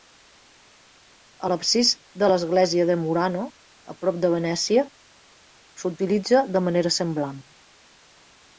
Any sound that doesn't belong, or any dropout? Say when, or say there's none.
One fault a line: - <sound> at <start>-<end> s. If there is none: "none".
none